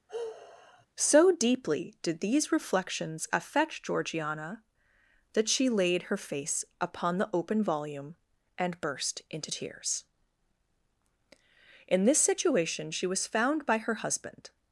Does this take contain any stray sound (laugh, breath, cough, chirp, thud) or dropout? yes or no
yes